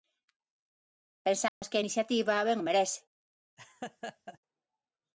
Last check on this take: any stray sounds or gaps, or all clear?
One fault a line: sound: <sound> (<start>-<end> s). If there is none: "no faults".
sound: dropout (1.5-1.6 s)
sound: laugh (3.6-4.4 s)